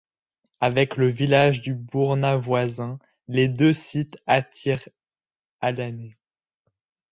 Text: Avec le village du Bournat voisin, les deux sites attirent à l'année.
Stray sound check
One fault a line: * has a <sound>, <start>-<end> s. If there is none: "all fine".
all fine